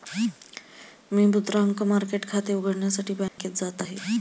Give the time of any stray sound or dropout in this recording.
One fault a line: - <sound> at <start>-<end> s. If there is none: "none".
- dropout at 3.3-3.4 s